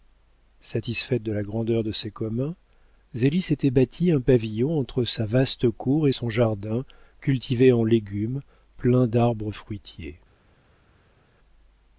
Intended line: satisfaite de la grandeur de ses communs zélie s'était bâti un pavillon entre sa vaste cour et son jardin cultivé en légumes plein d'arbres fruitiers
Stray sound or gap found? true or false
false